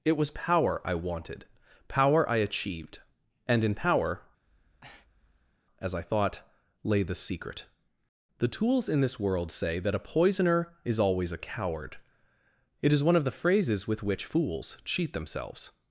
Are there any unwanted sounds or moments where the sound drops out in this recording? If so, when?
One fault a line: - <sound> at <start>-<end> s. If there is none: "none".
- breath at 4.4-5.6 s